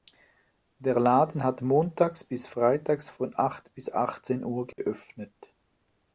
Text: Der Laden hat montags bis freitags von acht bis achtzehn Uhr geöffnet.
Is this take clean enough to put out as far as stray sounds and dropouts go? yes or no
no